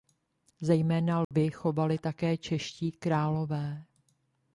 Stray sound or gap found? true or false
true